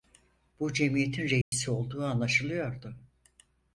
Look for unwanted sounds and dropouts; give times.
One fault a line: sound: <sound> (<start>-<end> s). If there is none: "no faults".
sound: dropout (1.4-1.5 s)